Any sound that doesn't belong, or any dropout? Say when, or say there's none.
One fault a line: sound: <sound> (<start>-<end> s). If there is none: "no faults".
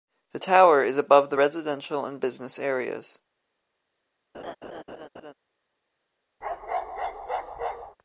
sound: laugh (4.3-5.3 s)
sound: bark (6.4-8.0 s)